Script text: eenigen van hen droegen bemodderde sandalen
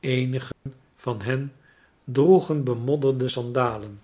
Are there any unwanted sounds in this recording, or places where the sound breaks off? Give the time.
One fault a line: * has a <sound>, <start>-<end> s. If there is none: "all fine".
* has a dropout, 0.5-0.7 s